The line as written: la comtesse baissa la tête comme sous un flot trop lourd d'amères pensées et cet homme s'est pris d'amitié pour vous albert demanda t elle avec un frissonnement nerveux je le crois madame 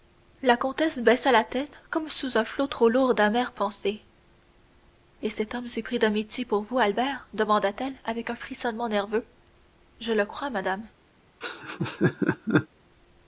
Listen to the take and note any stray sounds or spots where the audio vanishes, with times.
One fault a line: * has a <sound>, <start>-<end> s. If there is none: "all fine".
* has a laugh, 11.4-12.7 s